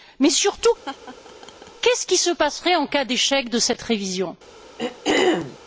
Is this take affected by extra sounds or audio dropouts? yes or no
yes